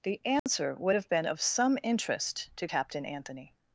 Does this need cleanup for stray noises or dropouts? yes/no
yes